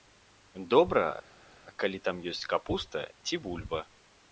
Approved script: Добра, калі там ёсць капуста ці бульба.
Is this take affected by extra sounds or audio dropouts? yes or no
no